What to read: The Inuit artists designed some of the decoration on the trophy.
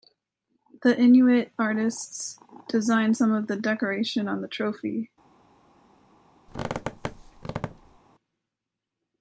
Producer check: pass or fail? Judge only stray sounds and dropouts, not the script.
fail